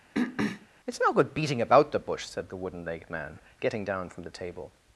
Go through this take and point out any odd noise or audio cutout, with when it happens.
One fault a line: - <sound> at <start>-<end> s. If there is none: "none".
- throat clearing at 0.1-0.7 s